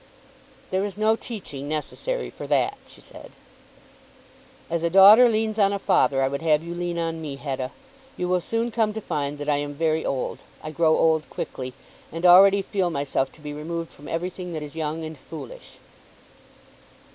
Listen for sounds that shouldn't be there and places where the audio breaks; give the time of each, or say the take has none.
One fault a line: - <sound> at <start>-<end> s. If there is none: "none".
none